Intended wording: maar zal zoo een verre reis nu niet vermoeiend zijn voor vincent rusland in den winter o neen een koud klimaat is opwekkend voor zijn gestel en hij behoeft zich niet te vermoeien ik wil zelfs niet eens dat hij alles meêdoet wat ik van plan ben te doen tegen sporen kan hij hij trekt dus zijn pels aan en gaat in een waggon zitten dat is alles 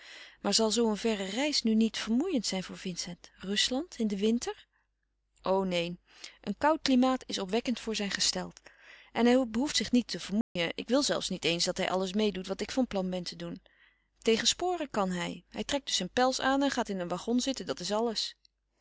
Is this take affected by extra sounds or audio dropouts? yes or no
yes